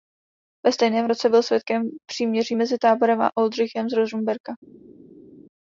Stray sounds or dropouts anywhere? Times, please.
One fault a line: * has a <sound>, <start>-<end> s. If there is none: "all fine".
all fine